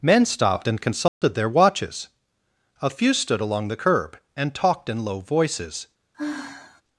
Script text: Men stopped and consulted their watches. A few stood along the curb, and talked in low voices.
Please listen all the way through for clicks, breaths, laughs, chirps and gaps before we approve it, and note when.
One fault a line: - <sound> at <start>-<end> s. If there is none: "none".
- dropout at 1.1-1.2 s
- sigh at 6.1-6.8 s